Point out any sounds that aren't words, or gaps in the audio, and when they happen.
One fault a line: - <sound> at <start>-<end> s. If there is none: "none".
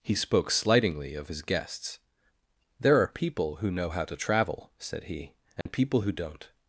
- dropout at 5.6-5.7 s